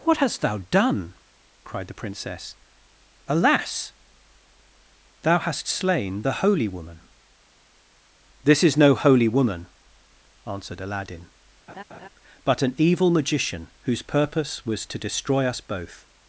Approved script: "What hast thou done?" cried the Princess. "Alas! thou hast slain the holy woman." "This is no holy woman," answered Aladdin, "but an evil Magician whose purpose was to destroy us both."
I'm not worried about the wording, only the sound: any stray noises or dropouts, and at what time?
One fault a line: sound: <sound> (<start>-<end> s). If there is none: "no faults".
sound: laugh (11.7-12.1 s)